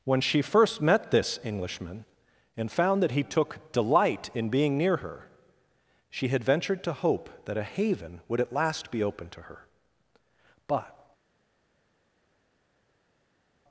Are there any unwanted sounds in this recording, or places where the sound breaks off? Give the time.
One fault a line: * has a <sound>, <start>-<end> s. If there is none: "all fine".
all fine